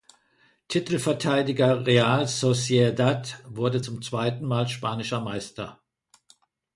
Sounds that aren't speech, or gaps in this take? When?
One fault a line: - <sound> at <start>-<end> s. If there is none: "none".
none